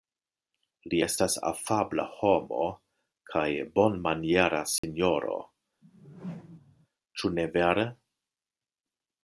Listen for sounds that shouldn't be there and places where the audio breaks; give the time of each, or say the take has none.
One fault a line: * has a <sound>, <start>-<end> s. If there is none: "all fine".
* has a dropout, 4.8-4.8 s
* has a whoosh, 5.8-6.9 s